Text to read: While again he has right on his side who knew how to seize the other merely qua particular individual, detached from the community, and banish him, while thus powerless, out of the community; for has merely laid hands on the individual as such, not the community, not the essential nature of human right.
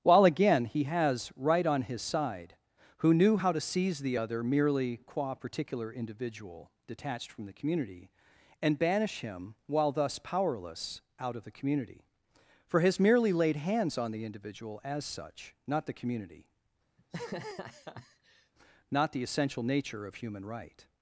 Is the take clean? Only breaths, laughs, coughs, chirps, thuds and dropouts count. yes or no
no